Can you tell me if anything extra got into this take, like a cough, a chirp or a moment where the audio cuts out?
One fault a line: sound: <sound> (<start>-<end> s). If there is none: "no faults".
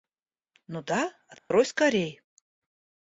sound: dropout (1.4-1.5 s)